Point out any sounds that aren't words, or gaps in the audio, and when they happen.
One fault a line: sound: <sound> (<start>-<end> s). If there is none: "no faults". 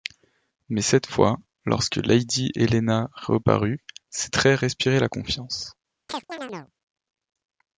sound: chirp (6.1-6.7 s)